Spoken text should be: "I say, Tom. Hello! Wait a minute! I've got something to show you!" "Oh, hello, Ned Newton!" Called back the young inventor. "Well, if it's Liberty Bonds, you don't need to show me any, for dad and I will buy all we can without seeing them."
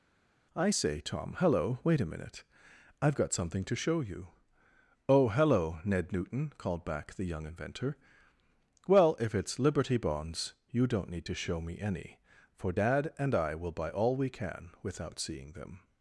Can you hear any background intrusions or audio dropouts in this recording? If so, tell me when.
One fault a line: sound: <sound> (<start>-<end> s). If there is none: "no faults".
no faults